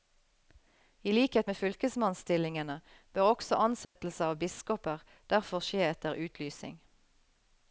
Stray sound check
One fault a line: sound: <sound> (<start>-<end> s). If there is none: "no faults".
sound: dropout (3.8-4.0 s)